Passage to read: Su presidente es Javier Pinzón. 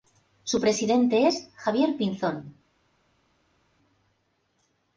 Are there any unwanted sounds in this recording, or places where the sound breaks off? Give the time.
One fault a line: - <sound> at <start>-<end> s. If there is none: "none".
none